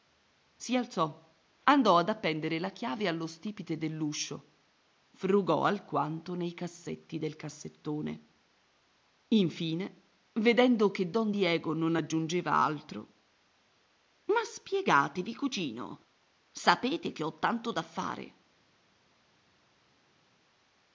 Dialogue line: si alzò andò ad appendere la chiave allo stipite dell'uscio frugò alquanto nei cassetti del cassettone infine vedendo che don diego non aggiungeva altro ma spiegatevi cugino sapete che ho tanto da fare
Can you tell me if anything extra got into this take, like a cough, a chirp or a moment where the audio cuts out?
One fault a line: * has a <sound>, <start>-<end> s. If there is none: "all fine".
all fine